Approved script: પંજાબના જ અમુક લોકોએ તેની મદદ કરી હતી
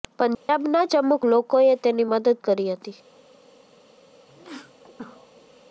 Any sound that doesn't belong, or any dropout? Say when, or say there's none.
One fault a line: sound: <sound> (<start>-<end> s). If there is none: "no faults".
sound: dropout (0.3-0.5 s)
sound: sneeze (4.3-5.6 s)